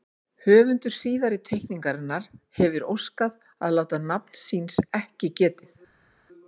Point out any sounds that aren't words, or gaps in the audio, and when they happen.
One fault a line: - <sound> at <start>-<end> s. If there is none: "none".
none